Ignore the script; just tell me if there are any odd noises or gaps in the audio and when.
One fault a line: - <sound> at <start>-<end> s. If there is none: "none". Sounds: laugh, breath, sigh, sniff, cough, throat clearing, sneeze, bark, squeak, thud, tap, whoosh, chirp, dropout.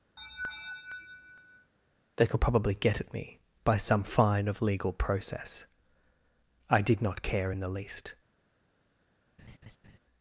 - laugh at 0.2-1.7 s
- laugh at 9.4-10.0 s